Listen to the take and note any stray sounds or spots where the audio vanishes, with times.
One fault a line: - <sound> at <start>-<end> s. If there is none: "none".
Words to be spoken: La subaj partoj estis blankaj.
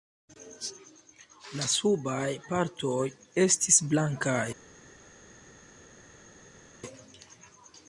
none